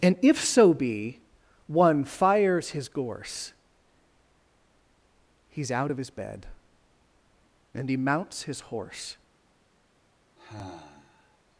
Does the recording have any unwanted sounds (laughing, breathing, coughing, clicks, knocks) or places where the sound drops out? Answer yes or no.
yes